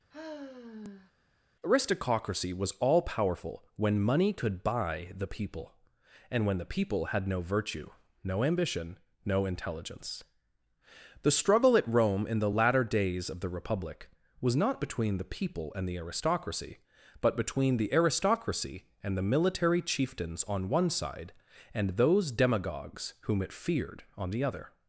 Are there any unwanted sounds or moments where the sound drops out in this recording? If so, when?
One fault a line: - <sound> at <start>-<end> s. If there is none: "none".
- sigh at 0.1-1.1 s